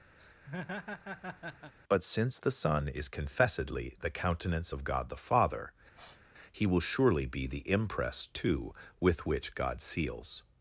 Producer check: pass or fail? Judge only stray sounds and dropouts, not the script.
fail